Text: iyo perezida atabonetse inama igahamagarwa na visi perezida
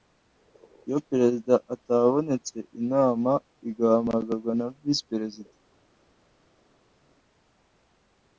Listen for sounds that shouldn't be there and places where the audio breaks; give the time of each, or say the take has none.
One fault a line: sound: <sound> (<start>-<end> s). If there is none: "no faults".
no faults